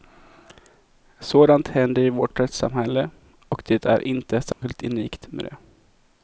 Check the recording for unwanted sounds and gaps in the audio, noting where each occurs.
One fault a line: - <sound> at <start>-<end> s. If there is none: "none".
- dropout at 4.5-4.6 s